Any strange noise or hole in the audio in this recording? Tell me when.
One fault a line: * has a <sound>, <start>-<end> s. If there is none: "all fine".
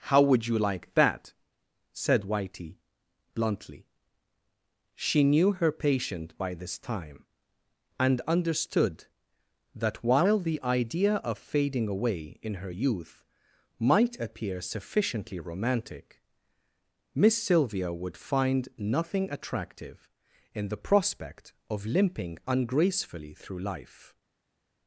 all fine